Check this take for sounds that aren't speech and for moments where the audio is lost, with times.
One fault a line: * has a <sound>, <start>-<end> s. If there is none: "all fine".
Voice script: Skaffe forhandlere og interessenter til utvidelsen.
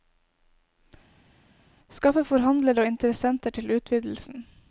all fine